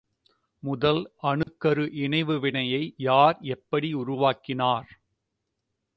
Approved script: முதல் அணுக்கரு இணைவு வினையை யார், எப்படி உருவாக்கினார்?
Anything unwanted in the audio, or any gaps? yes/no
yes